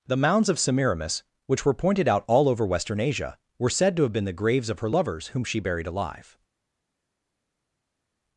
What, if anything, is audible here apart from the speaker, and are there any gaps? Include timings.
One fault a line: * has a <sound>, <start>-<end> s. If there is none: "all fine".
all fine